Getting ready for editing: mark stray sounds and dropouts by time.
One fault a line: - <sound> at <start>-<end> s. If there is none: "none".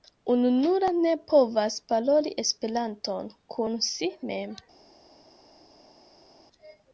none